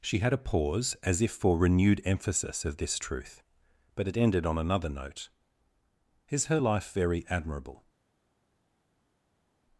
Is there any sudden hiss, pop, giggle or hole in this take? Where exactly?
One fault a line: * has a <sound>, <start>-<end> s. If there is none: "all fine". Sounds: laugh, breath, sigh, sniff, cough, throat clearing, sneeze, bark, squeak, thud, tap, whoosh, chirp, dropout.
all fine